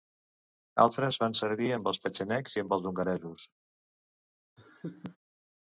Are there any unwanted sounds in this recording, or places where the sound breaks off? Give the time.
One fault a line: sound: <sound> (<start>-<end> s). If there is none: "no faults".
sound: laugh (4.6-5.2 s)